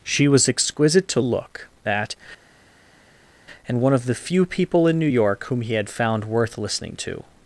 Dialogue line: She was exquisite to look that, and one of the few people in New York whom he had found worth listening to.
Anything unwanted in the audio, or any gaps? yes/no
no